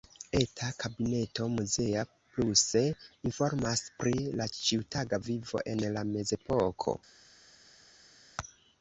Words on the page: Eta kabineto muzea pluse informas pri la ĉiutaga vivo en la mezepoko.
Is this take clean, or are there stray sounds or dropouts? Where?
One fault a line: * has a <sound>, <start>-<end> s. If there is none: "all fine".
all fine